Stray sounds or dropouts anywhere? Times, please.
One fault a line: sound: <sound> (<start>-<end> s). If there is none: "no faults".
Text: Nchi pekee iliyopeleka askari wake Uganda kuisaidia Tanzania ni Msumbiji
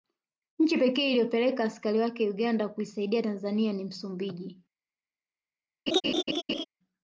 sound: laugh (5.9-6.6 s)